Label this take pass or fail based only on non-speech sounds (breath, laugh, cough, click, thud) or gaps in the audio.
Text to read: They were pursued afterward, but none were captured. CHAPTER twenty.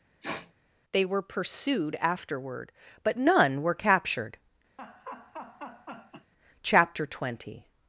fail